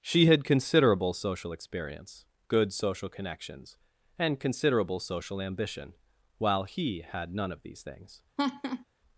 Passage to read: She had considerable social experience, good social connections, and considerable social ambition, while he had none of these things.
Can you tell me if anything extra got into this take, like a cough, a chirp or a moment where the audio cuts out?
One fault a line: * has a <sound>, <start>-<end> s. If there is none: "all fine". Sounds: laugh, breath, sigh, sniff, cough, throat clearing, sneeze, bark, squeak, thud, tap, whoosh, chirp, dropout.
* has a laugh, 8.4-8.8 s